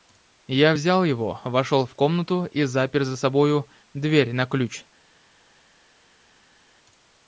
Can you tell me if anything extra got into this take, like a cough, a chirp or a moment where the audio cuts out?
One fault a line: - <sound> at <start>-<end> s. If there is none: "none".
none